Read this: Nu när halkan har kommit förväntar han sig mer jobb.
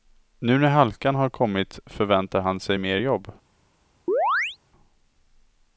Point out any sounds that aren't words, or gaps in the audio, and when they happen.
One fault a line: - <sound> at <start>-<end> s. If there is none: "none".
- chirp at 4.1-4.6 s